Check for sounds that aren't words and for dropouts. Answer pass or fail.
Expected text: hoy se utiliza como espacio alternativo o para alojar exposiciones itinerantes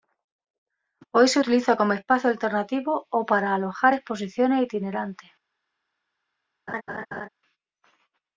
fail